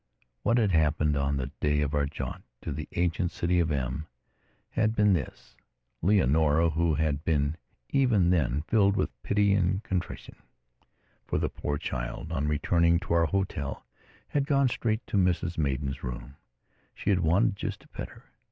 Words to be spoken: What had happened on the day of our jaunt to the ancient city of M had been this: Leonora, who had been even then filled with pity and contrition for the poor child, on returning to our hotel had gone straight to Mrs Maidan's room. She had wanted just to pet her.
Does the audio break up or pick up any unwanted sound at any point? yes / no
no